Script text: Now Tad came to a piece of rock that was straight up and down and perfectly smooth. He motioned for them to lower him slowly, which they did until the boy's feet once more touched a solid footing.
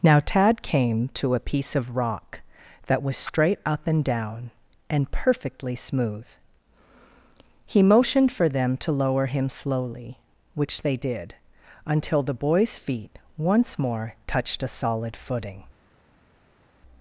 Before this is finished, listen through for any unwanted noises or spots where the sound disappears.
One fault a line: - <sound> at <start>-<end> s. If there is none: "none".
none